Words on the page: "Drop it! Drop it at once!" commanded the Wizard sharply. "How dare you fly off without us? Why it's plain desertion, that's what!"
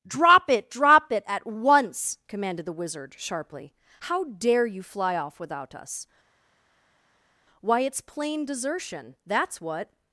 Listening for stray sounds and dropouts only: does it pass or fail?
pass